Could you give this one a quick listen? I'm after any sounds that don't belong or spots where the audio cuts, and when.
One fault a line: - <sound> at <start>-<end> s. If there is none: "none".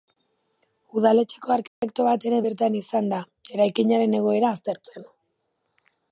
- dropout at 1.7-1.8 s